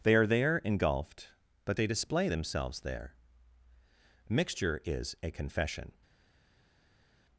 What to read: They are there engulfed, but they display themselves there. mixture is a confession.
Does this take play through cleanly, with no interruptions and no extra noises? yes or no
yes